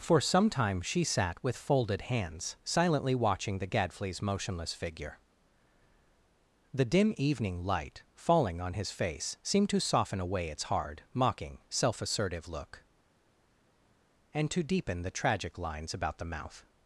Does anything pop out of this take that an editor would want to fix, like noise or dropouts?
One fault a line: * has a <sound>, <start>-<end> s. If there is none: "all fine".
all fine